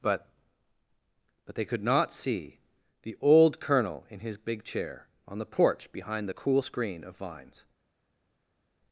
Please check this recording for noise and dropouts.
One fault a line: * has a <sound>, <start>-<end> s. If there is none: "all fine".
all fine